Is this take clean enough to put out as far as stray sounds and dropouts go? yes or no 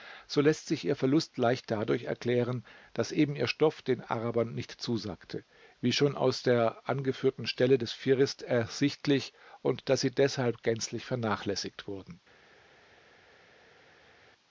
yes